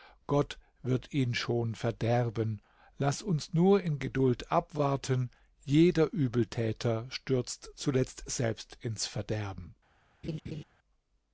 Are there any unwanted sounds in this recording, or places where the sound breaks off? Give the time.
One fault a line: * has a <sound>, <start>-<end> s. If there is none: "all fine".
* has a laugh, 10.2-10.6 s